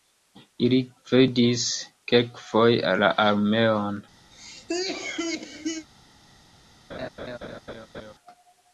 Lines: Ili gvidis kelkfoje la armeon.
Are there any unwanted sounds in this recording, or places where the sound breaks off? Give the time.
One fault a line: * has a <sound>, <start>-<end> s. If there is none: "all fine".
* has a cough, 4.3-5.9 s
* has a laugh, 6.9-8.1 s